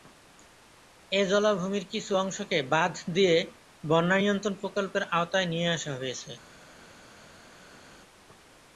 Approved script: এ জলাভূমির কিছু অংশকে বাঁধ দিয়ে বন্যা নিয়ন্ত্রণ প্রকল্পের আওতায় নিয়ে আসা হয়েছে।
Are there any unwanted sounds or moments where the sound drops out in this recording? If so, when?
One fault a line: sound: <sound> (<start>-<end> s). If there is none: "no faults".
no faults